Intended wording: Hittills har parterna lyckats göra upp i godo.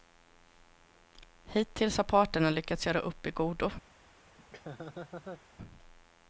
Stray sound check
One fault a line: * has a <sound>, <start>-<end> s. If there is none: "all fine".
* has a laugh, 4.4-5.4 s